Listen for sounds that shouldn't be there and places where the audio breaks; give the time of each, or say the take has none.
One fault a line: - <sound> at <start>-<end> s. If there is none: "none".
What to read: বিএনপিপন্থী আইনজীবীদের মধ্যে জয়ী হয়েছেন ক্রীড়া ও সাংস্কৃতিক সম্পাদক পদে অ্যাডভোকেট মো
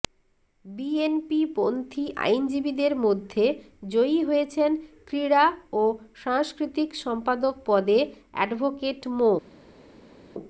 none